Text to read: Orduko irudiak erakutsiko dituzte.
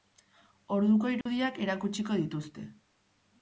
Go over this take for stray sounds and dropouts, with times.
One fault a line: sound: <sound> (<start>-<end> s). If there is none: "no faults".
sound: dropout (1.2-1.3 s)